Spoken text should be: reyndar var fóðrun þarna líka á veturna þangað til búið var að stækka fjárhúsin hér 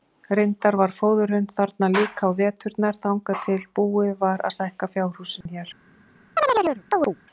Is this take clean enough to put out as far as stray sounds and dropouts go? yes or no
no